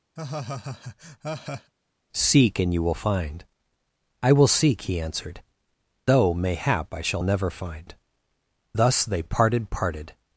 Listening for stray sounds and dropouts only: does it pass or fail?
fail